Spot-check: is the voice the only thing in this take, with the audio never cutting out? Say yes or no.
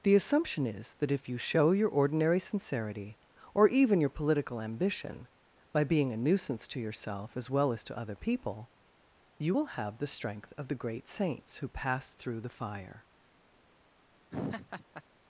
no